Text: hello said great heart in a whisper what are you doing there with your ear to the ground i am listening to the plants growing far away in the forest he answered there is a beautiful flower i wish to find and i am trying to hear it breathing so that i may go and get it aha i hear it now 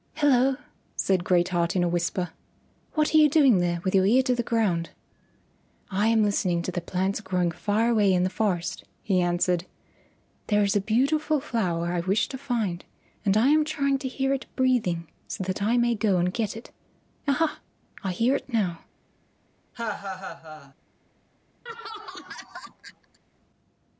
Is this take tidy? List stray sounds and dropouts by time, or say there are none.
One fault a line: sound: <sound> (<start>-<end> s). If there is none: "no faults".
sound: laugh (19.7-20.7 s)
sound: laugh (21.7-23.2 s)